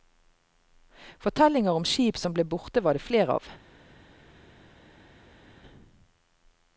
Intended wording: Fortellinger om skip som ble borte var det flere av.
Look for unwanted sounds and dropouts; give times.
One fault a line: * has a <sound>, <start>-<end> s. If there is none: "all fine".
all fine